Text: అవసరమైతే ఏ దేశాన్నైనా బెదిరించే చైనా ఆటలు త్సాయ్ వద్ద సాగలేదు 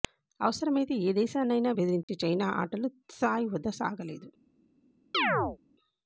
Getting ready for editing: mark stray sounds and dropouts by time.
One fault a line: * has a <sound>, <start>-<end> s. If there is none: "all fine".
* has a dropout, 2.0-2.1 s
* has a chirp, 5.1-5.6 s